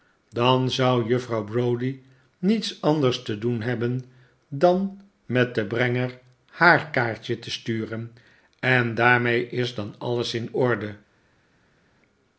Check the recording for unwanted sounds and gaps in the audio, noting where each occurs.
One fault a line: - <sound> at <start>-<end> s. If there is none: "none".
none